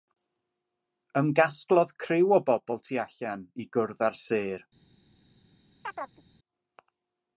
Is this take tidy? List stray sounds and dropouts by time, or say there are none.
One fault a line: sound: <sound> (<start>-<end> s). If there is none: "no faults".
sound: chirp (5.8-6.2 s)